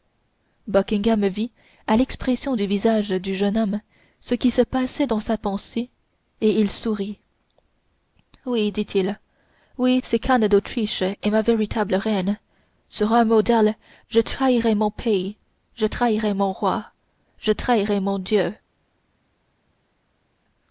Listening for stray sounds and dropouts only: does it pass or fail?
pass